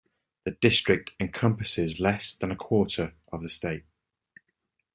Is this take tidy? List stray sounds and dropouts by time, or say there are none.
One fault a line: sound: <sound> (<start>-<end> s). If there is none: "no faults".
no faults